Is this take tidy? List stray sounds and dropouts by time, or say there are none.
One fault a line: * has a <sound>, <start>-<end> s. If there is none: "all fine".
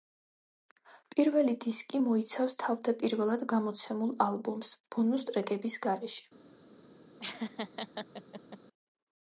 * has a laugh, 7.2-8.6 s